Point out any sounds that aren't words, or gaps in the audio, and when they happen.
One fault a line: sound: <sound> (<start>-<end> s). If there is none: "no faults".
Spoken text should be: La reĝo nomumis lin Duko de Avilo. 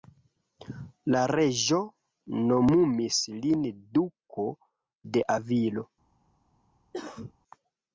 sound: cough (6.9-7.3 s)